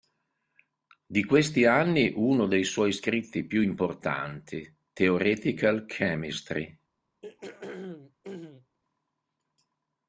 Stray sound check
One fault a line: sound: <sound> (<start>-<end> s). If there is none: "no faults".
sound: throat clearing (7.2-8.8 s)